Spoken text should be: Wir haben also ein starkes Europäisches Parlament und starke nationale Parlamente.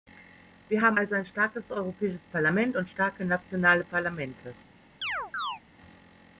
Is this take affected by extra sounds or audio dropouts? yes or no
yes